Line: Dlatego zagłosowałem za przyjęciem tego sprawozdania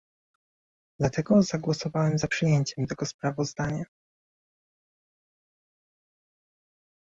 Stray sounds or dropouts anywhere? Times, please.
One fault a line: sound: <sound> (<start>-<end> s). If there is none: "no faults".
no faults